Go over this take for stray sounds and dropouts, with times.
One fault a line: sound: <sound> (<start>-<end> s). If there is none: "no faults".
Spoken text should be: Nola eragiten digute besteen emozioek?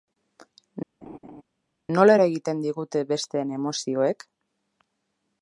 sound: laugh (1.0-1.4 s)